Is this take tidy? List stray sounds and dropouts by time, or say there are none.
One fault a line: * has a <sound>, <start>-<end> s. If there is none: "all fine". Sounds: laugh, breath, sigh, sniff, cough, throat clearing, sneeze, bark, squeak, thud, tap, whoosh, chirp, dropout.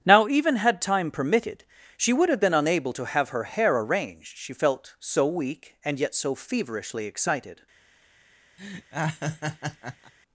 * has a laugh, 8.6-10.1 s